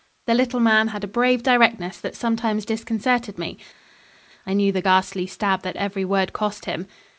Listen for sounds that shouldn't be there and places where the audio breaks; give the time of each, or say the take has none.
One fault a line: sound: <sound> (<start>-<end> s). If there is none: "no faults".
no faults